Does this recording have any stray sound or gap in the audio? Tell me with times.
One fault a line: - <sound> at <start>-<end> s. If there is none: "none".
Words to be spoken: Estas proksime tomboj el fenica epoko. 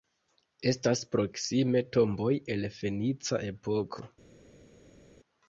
none